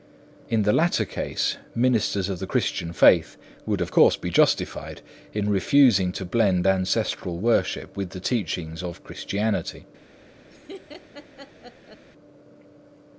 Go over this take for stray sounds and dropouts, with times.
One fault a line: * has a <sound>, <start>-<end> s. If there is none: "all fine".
* has a laugh, 10.5-12.0 s